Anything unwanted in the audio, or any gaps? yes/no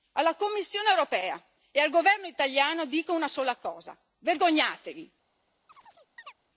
yes